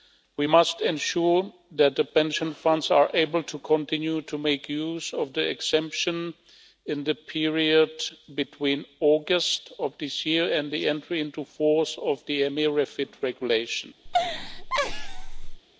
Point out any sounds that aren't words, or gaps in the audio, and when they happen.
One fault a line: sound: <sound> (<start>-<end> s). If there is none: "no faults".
sound: laugh (14.1-15.6 s)